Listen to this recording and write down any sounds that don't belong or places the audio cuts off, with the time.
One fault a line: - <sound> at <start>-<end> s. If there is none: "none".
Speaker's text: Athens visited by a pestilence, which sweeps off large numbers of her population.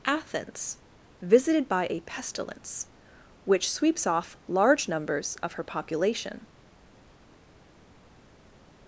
none